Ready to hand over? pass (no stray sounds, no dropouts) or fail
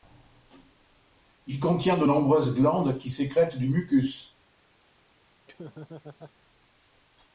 fail